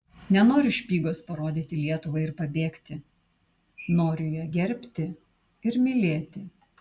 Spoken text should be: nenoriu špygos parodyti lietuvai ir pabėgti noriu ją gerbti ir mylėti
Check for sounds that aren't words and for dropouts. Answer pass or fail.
pass